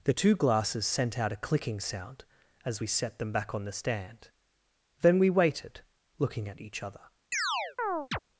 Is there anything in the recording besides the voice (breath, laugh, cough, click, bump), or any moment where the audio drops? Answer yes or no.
yes